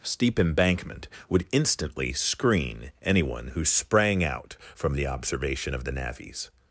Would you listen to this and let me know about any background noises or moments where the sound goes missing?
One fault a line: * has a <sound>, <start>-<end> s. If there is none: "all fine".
all fine